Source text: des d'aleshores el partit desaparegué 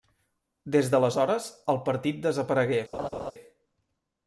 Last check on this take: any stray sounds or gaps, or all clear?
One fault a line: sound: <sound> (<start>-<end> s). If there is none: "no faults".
sound: laugh (2.9-3.3 s)